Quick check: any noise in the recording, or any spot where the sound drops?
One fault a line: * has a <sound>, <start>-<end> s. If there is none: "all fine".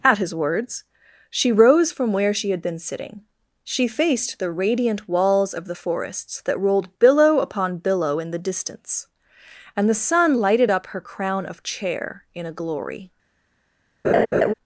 * has a laugh, 14.0-14.5 s